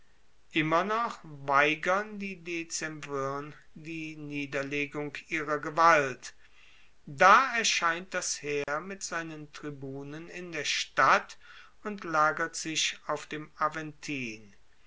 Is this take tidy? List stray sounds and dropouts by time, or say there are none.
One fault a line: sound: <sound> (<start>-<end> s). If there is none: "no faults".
sound: dropout (8.6-8.7 s)